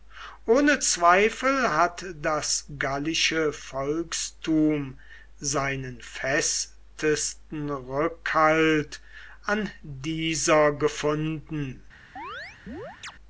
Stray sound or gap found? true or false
true